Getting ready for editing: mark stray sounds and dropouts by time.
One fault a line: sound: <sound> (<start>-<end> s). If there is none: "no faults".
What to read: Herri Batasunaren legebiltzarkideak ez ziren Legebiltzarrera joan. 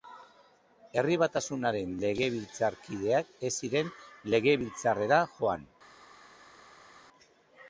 no faults